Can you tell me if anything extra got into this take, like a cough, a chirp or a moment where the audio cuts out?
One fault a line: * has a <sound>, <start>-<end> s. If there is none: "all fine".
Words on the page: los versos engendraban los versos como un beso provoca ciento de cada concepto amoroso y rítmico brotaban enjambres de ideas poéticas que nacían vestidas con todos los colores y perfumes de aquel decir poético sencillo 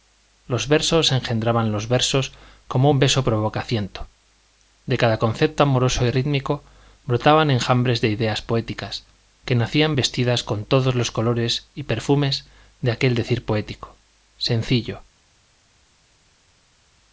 all fine